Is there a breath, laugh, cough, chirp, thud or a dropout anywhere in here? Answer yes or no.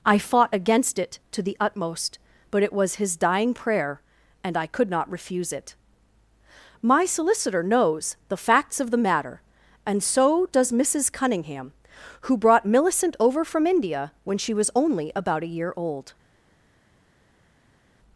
no